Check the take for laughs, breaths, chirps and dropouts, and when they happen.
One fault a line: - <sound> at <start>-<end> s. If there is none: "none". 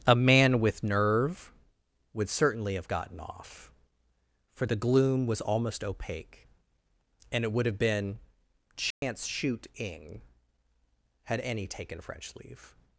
- dropout at 8.9-9.0 s